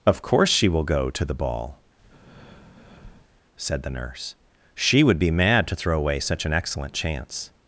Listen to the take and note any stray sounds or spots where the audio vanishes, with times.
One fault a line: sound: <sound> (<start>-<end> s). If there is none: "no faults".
sound: breath (2.0-3.4 s)